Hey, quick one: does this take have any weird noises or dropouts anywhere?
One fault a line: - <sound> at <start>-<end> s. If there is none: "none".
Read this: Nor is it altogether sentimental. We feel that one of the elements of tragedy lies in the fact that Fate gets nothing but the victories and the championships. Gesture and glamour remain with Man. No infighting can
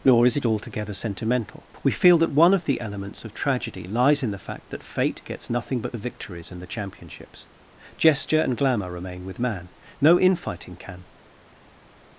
none